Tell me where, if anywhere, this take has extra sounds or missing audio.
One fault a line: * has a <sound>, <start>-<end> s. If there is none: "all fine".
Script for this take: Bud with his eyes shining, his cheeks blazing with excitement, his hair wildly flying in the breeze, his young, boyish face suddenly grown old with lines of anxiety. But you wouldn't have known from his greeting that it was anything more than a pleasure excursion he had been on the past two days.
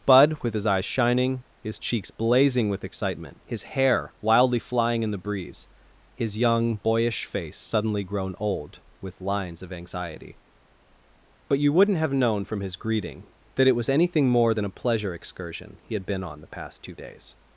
all fine